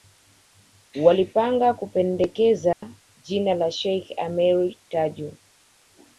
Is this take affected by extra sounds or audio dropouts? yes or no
yes